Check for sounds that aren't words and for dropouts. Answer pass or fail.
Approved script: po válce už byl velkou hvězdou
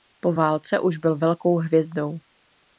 pass